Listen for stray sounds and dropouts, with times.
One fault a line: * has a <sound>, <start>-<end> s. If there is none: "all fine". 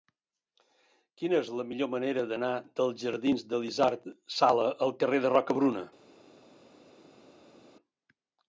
all fine